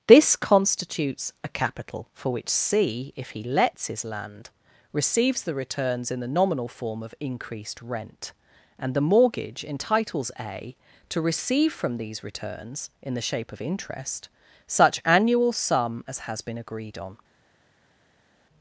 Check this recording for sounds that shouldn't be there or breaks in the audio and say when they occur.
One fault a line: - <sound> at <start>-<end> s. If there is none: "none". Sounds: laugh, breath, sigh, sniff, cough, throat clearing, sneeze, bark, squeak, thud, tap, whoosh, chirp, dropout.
none